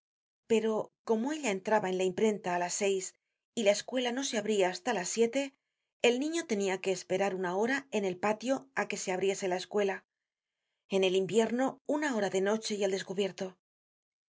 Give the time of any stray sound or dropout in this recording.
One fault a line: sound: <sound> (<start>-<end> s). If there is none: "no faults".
no faults